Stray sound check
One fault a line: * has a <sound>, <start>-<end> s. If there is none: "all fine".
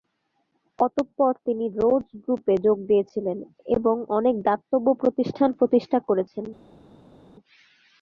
all fine